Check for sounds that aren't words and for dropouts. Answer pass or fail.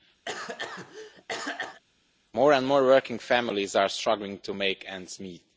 fail